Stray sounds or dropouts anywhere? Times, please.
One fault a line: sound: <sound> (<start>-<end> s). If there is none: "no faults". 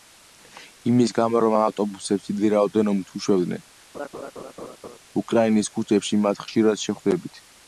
sound: laugh (3.9-5.0 s)